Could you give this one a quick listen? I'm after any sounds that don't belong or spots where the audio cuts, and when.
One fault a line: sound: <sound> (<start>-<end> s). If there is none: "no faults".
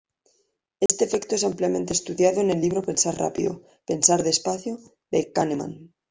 sound: dropout (0.9-0.9 s)